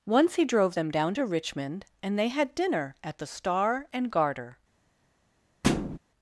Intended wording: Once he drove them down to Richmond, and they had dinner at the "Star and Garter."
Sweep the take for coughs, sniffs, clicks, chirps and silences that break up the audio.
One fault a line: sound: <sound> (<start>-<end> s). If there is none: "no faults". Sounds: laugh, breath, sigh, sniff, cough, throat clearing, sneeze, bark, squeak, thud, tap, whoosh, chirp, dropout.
sound: thud (5.6-6.0 s)